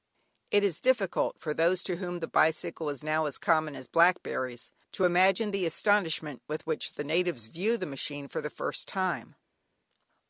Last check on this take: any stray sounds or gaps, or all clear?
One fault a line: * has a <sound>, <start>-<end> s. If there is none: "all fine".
all fine